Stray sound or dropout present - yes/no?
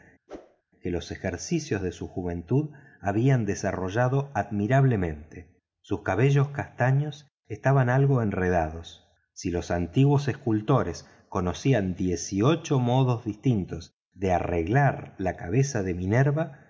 yes